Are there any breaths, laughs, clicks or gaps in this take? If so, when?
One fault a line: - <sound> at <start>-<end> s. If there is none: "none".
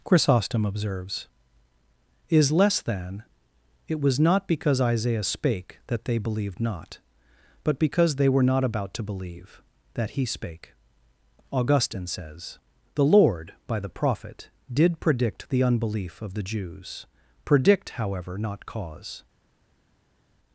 none